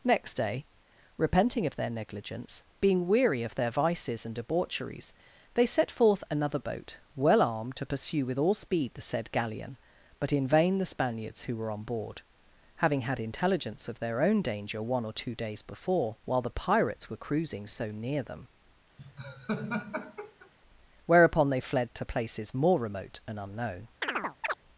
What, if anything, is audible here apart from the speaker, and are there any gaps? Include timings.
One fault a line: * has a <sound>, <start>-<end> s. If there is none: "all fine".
* has a laugh, 19.0-20.5 s
* has a chirp, 24.0-24.6 s